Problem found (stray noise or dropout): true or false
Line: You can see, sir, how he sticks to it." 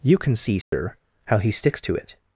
true